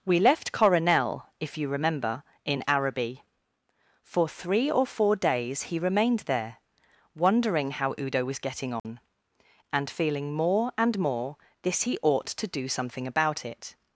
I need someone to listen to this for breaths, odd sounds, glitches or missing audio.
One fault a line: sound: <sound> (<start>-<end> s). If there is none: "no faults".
sound: dropout (8.8-8.8 s)